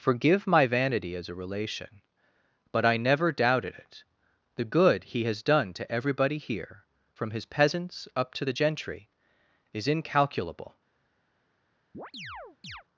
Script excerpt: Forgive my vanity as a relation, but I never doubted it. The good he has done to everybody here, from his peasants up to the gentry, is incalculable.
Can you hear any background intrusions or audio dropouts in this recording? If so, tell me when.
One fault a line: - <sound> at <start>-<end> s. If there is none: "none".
- chirp at 11.9-12.8 s